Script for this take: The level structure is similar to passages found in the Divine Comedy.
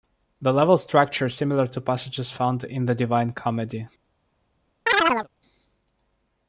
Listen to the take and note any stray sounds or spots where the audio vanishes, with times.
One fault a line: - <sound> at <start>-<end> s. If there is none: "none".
- chirp at 4.9-5.3 s